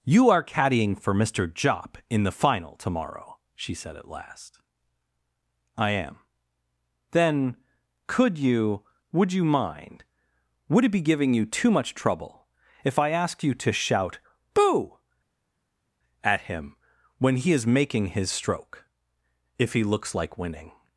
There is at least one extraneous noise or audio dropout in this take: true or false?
false